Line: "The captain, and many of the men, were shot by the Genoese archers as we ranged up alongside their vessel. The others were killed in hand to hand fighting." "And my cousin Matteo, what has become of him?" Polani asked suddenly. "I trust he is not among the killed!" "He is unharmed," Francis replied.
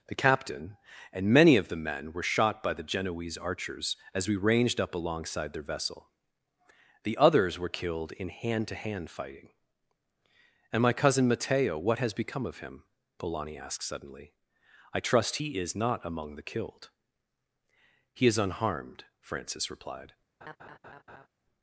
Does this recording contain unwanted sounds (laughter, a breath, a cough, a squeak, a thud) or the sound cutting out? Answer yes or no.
yes